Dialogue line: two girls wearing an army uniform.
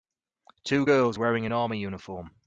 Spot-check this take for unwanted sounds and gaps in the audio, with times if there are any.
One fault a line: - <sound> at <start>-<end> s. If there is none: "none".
none